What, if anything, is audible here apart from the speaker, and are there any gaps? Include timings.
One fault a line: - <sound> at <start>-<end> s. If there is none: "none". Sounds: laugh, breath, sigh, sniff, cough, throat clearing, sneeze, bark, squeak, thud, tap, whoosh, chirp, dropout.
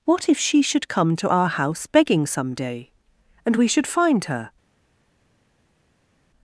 none